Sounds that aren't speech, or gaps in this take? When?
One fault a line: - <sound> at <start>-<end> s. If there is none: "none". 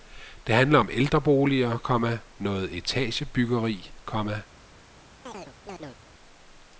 - chirp at 5.3-6.0 s